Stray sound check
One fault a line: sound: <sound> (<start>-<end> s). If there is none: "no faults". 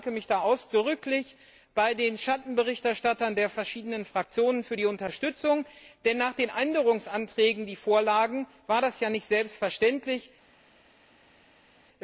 no faults